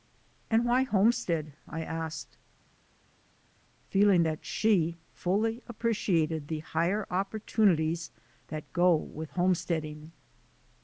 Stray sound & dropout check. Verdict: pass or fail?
pass